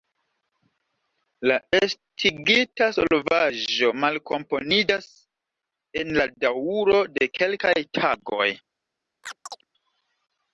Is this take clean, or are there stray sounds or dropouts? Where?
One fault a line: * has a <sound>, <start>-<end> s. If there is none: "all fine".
* has a chirp, 9.2-9.6 s